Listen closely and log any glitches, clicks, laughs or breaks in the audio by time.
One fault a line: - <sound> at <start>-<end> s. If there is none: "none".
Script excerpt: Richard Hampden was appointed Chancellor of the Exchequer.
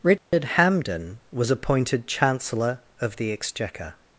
- dropout at 0.2-0.3 s